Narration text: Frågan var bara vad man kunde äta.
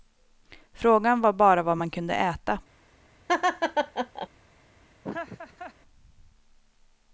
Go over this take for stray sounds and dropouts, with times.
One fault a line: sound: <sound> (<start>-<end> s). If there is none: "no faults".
sound: laugh (3.3-4.3 s)
sound: laugh (5.0-5.7 s)